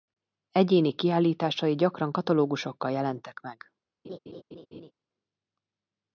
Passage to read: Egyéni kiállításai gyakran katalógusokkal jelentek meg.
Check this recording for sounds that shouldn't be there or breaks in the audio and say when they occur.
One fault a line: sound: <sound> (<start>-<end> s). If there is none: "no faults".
sound: laugh (4.0-4.9 s)